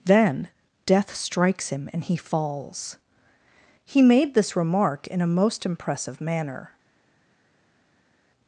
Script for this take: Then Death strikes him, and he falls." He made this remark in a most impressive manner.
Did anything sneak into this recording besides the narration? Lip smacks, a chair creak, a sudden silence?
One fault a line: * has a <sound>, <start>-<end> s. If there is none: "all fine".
all fine